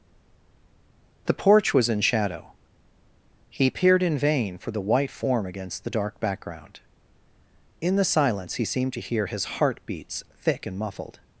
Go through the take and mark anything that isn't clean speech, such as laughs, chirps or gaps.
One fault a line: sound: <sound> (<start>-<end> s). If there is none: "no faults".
no faults